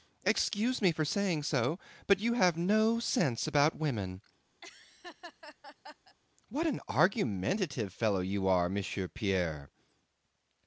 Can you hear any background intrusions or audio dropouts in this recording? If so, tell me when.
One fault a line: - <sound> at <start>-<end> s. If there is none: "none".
- laugh at 4.6-6.2 s